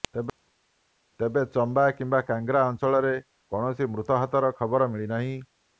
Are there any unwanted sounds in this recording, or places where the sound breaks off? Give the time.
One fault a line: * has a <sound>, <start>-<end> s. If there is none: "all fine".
all fine